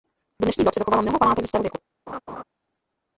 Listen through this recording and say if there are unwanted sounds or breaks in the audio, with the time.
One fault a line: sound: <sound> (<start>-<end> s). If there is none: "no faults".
sound: laugh (2.1-2.4 s)